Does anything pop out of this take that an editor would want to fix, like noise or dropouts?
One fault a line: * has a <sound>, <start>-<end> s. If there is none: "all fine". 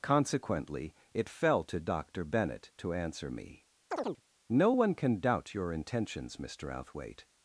* has a chirp, 3.9-4.2 s